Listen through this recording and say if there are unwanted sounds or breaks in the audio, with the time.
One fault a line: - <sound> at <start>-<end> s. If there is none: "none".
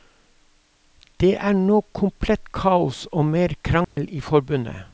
- dropout at 3.8-4.0 s